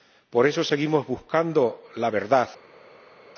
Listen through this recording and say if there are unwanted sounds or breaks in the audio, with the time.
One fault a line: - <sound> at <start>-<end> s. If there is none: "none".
none